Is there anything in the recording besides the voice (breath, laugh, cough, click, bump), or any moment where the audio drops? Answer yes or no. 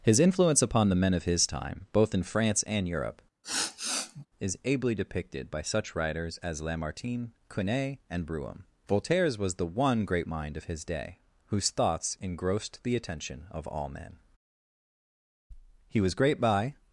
yes